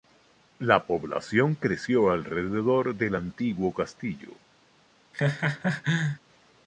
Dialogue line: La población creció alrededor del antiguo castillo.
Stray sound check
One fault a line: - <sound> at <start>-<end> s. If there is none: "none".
- laugh at 5.1-6.2 s